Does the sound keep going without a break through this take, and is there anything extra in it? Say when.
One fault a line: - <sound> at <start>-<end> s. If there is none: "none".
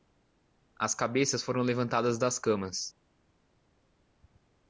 none